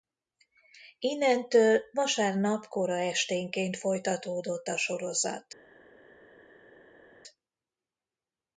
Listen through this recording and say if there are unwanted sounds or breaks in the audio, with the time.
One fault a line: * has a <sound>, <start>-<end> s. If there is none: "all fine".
all fine